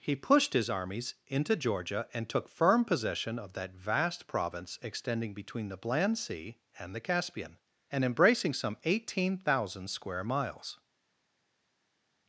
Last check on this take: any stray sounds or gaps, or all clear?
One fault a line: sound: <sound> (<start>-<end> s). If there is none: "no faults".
no faults